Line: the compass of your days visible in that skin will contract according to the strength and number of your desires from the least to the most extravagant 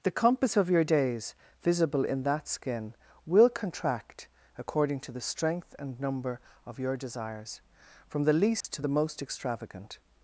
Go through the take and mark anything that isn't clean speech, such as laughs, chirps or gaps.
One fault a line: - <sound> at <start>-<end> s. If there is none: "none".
- dropout at 8.6-8.6 s